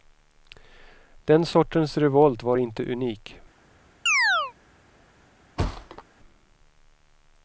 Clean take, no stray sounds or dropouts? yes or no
no